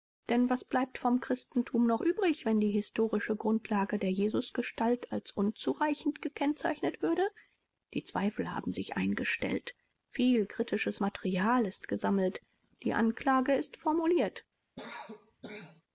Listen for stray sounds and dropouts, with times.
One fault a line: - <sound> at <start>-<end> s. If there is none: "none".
- cough at 14.8-15.8 s